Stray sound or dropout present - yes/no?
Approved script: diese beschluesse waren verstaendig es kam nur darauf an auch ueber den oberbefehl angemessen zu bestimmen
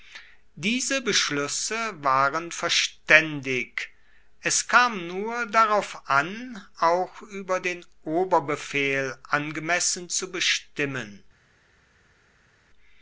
no